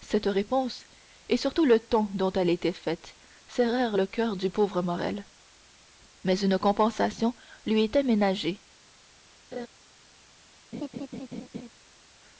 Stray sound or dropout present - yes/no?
yes